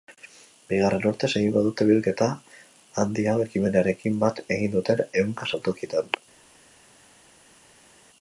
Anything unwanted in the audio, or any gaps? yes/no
no